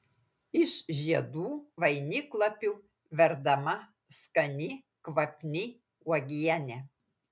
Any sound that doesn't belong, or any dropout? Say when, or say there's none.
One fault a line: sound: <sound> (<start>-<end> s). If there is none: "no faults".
no faults